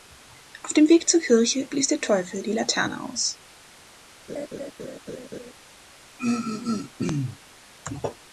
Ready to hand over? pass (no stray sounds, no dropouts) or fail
fail